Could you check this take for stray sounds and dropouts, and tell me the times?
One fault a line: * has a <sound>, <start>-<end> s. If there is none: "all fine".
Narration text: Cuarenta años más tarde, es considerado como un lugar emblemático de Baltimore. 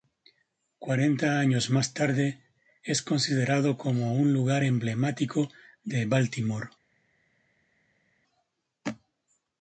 all fine